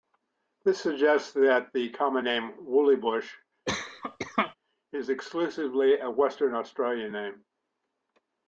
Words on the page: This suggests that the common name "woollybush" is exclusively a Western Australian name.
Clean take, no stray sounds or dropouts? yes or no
no